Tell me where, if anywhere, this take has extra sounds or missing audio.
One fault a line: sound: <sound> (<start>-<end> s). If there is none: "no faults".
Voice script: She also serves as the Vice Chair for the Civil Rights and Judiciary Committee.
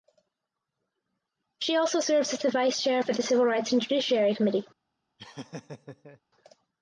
sound: laugh (5.2-6.2 s)